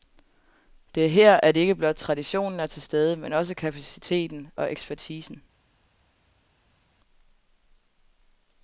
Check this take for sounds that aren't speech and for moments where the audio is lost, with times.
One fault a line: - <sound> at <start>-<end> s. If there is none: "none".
none